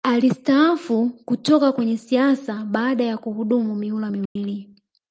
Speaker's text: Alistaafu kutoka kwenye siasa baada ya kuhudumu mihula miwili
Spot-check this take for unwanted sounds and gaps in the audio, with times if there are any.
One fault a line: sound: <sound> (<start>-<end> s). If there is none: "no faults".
sound: dropout (4.3-4.4 s)